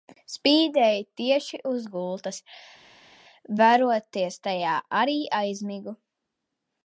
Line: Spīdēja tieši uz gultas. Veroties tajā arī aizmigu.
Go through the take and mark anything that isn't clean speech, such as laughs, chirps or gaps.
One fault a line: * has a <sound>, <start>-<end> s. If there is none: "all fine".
all fine